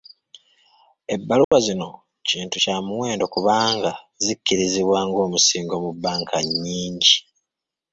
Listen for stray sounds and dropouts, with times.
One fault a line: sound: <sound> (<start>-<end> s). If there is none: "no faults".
sound: dropout (1.4-1.5 s)